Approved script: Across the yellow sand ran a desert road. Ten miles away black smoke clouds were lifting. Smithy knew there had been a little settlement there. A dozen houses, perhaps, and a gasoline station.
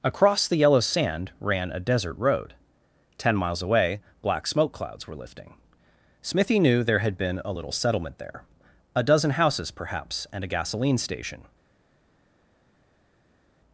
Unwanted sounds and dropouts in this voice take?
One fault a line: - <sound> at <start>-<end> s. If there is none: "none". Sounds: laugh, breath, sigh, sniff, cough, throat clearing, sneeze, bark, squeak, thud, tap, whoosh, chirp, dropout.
none